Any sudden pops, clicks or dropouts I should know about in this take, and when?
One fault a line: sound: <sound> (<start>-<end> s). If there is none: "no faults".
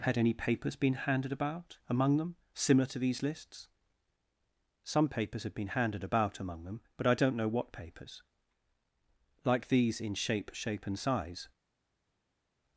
no faults